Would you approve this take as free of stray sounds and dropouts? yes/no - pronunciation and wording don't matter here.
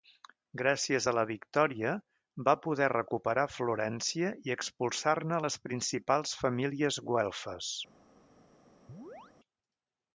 no